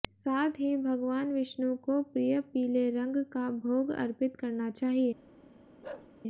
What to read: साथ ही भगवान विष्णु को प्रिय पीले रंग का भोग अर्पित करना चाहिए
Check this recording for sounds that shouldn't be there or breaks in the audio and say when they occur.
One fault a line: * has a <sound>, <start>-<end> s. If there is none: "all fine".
* has a bark, 5.8-6.1 s